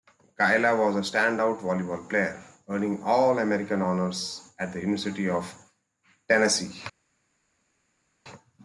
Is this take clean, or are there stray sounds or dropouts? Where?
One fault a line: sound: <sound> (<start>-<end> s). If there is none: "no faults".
no faults